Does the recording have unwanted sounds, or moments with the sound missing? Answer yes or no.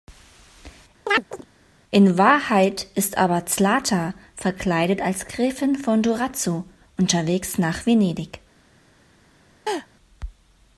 yes